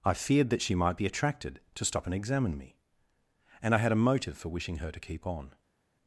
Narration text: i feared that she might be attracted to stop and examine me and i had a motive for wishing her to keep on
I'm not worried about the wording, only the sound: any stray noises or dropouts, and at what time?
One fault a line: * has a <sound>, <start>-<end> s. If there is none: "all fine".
all fine